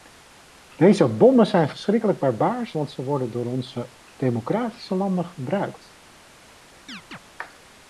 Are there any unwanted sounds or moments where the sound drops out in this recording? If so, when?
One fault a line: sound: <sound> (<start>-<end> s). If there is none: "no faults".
sound: chirp (6.9-7.2 s)